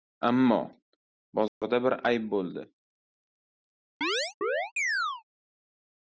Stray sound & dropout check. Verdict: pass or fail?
fail